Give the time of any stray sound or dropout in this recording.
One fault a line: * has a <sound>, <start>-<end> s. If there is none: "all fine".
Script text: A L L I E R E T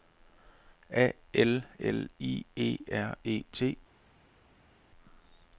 all fine